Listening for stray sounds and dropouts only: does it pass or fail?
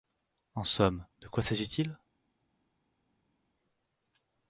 pass